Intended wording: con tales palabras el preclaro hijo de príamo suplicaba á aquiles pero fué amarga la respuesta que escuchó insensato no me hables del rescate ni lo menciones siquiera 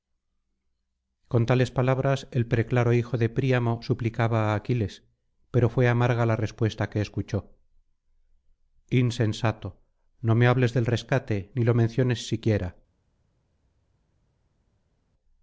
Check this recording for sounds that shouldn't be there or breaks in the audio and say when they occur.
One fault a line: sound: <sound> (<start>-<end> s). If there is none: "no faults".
no faults